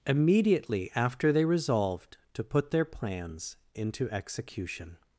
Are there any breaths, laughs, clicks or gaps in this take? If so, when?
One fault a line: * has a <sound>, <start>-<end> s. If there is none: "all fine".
all fine